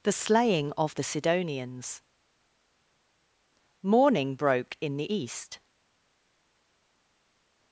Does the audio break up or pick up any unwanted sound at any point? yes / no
no